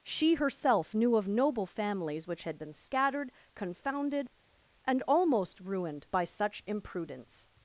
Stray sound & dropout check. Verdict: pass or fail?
pass